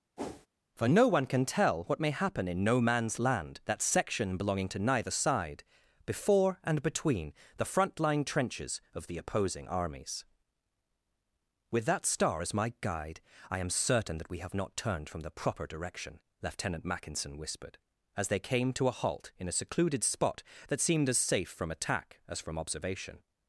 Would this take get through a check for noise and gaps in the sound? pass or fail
fail